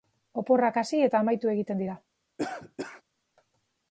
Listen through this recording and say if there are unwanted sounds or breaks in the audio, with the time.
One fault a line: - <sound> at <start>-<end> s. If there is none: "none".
- cough at 2.4-3.0 s